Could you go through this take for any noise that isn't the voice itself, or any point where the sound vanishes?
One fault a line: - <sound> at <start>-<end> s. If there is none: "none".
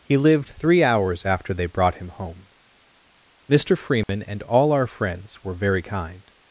- dropout at 4.0-4.1 s